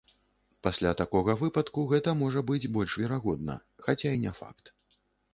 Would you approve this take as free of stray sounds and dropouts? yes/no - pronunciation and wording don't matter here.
yes